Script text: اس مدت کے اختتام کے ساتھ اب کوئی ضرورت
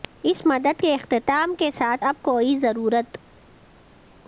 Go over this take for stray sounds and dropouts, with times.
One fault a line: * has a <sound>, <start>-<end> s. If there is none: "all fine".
all fine